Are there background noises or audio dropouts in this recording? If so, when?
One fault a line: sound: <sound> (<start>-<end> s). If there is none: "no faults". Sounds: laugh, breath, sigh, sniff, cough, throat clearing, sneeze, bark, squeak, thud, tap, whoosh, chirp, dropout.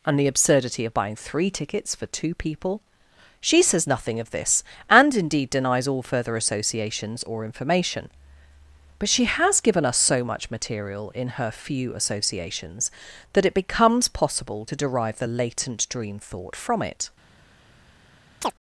sound: chirp (18.4-18.5 s)